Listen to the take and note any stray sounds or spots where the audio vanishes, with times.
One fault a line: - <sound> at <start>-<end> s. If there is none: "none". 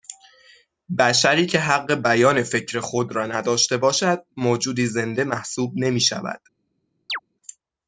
- chirp at 7.1-7.2 s